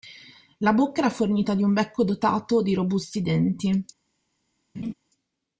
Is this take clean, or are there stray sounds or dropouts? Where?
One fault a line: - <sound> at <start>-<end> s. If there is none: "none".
- laugh at 4.7-4.9 s